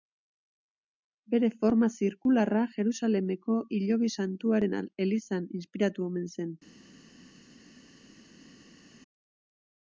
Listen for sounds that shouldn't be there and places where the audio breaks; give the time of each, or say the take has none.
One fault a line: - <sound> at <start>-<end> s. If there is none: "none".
none